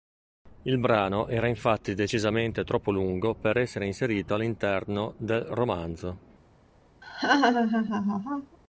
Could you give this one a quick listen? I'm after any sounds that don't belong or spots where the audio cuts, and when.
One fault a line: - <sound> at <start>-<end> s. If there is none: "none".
- laugh at 7.0-8.6 s